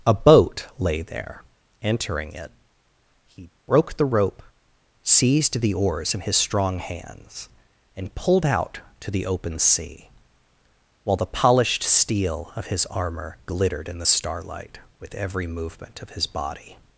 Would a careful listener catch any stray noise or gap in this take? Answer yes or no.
no